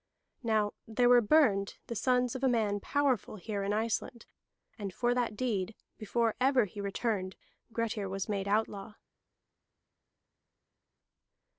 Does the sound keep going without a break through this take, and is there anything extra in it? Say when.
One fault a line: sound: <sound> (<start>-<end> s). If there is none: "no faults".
no faults